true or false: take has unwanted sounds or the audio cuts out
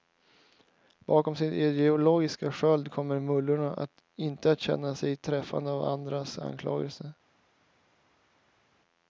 false